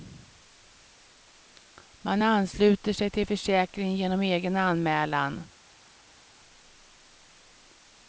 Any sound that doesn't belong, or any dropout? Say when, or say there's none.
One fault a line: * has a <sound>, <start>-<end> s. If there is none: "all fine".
all fine